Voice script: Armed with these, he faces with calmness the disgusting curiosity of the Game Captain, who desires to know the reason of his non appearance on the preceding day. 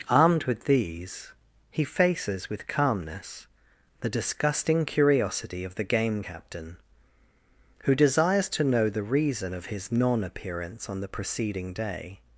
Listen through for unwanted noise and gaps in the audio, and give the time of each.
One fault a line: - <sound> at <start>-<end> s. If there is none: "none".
none